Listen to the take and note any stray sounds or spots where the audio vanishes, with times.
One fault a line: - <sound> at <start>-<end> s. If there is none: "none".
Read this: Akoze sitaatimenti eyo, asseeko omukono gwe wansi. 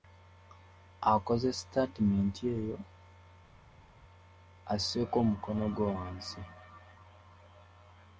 none